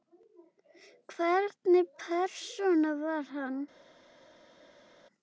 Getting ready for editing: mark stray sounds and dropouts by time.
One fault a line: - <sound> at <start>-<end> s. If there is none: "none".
none